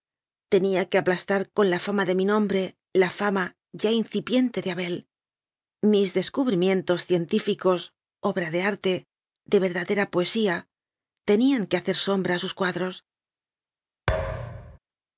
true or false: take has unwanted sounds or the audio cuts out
true